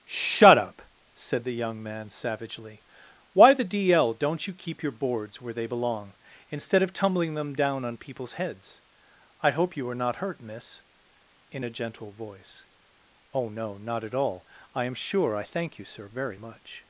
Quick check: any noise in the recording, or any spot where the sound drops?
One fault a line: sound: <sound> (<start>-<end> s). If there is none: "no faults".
no faults